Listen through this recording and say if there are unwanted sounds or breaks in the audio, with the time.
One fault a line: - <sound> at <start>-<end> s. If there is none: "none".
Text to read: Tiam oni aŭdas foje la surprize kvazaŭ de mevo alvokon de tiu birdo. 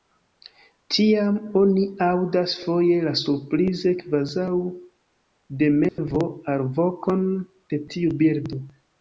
- dropout at 5.9-6.0 s